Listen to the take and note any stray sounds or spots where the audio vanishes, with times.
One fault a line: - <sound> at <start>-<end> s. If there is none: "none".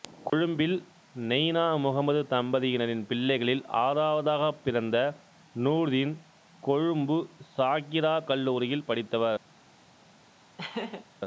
- laugh at 10.6-11.1 s